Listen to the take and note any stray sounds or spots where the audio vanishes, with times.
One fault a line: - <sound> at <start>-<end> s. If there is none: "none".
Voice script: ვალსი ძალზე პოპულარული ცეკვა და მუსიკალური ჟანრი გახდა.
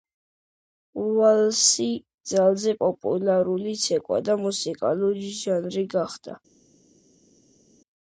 none